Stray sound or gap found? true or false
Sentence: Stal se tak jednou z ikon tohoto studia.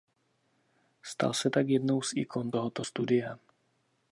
false